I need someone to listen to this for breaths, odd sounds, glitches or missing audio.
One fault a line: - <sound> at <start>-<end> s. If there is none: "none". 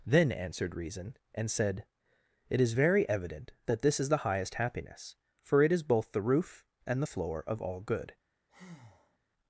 - breath at 8.5-9.2 s